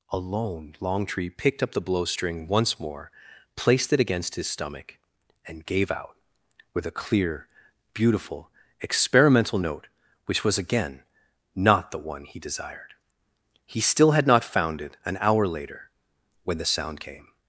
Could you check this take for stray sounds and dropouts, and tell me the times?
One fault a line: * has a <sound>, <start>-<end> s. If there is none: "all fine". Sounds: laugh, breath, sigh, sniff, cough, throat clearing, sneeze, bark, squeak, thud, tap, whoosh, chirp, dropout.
all fine